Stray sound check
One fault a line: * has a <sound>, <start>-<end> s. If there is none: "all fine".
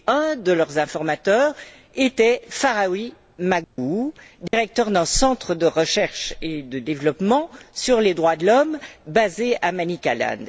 * has a dropout, 3.6-3.8 s
* has a dropout, 4.5-4.5 s